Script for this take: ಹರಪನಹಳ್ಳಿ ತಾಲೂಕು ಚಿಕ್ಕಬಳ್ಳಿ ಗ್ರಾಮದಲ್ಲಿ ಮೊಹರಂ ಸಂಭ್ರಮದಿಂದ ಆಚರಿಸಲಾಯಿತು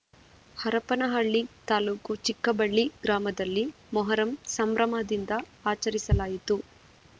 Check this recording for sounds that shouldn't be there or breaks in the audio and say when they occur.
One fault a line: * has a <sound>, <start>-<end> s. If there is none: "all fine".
all fine